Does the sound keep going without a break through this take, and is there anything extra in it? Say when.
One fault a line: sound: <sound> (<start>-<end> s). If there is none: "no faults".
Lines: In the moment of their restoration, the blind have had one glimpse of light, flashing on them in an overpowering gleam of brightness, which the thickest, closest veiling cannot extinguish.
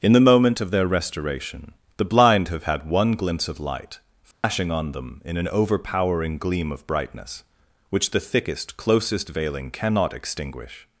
sound: dropout (4.3-4.4 s)